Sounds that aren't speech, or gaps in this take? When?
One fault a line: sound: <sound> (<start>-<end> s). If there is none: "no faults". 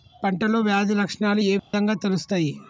sound: dropout (1.6-1.7 s)